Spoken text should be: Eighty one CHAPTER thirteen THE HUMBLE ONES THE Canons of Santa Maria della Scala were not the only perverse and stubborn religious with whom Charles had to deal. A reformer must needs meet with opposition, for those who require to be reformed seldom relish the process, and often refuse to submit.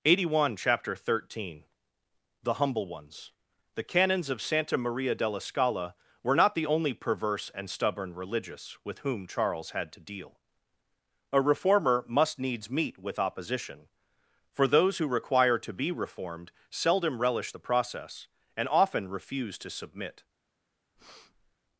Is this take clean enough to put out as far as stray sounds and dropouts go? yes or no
no